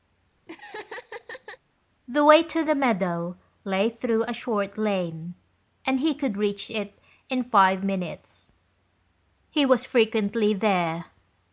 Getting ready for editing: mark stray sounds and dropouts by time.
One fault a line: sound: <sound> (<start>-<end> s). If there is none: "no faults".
sound: laugh (0.5-1.6 s)